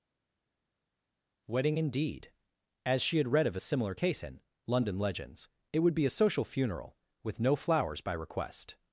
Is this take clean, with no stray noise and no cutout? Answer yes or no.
yes